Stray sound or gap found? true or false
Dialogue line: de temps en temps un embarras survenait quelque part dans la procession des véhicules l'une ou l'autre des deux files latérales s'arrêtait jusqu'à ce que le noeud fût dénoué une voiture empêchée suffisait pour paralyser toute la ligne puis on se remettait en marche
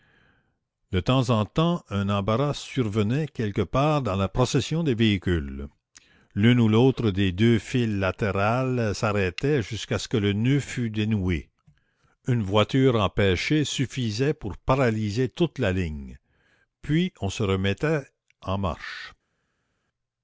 false